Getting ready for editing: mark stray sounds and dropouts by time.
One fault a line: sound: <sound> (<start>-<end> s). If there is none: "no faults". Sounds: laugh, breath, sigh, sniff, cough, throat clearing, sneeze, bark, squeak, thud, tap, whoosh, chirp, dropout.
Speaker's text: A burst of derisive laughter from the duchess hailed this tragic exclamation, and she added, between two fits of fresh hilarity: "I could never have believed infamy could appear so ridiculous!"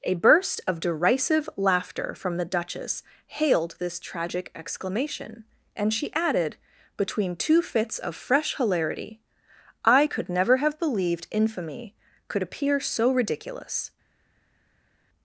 no faults